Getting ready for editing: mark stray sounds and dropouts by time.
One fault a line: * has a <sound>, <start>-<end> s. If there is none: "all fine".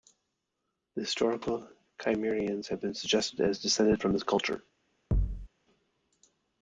* has a thud, 5.1-5.5 s